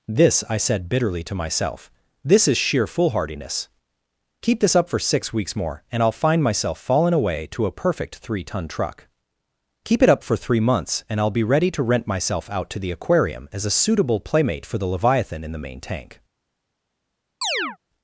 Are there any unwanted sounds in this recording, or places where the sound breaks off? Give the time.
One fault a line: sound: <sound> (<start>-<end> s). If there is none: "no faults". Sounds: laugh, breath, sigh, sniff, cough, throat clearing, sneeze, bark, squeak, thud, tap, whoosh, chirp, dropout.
sound: chirp (17.4-17.8 s)